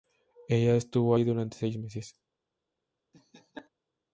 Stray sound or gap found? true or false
true